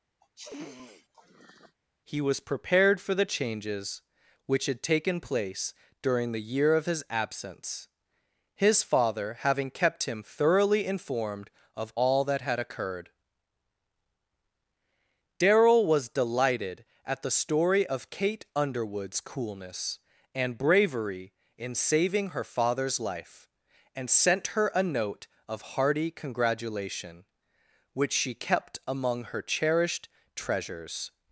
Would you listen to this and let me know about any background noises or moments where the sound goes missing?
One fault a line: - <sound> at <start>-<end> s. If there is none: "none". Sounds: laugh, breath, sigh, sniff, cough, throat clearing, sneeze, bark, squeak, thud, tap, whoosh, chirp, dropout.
- sniff at 0.2-1.8 s